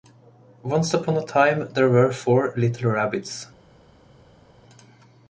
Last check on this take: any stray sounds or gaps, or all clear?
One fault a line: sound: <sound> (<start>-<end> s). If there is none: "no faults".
no faults